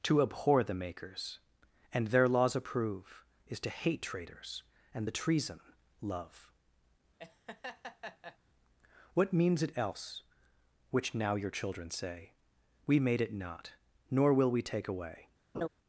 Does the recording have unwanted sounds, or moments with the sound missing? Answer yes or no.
yes